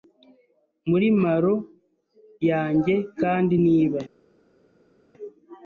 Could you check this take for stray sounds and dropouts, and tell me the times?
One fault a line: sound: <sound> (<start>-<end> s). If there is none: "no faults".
no faults